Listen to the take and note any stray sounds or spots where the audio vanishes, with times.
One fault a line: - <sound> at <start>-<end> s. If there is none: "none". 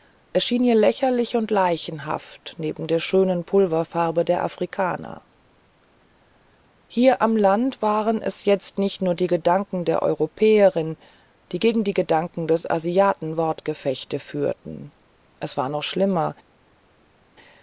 none